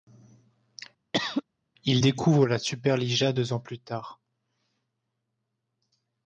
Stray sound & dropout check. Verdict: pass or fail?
fail